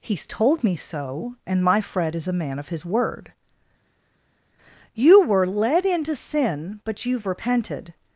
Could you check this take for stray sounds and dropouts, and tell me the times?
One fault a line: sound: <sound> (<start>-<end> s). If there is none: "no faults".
no faults